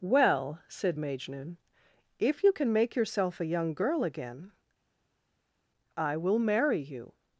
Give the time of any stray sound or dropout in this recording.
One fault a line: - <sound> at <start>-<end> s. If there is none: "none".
none